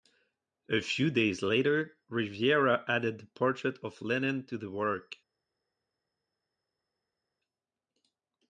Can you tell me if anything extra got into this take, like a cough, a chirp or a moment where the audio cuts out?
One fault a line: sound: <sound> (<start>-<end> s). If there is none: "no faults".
no faults